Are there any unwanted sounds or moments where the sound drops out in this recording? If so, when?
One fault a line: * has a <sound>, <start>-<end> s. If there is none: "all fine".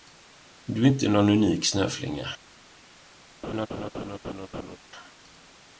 * has a laugh, 3.4-4.8 s